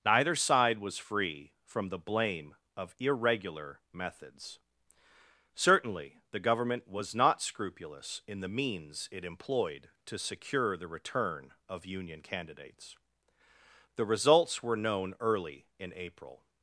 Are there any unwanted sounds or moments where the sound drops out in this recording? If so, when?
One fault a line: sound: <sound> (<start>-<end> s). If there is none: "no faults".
no faults